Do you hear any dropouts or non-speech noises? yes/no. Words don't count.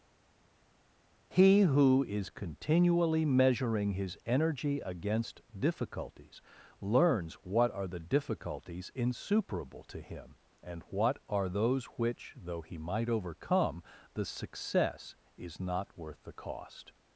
no